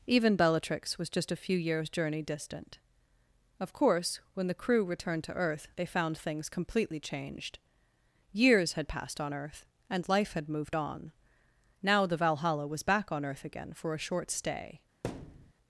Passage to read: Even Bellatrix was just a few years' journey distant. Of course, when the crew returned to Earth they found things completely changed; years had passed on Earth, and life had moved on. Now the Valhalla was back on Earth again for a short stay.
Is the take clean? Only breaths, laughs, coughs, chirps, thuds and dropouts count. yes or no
no